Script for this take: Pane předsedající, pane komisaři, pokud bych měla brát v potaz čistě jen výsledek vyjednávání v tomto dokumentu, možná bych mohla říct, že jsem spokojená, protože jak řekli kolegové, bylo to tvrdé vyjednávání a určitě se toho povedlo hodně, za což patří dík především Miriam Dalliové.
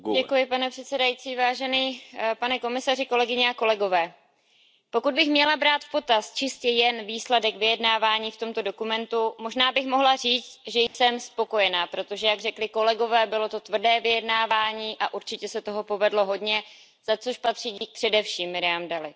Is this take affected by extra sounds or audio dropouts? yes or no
yes